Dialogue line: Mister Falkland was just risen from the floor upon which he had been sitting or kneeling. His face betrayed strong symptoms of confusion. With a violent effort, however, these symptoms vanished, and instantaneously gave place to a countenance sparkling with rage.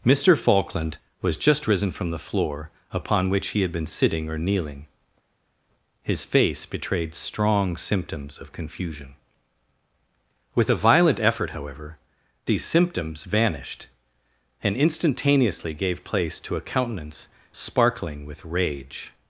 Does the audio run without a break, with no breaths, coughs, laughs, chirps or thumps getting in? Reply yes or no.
yes